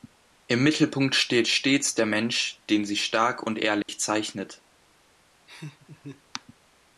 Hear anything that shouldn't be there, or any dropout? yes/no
yes